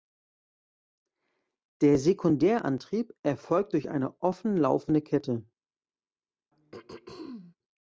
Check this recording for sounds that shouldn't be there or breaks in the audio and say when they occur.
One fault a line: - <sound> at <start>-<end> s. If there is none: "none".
- throat clearing at 6.5-7.6 s